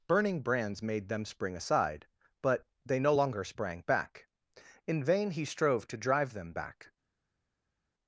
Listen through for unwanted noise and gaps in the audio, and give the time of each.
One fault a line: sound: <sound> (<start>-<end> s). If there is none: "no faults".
no faults